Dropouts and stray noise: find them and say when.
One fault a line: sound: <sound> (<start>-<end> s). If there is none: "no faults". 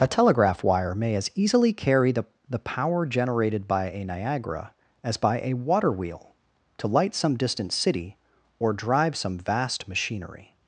no faults